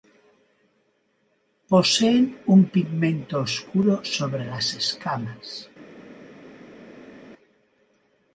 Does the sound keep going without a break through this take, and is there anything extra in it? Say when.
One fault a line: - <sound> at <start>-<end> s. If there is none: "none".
none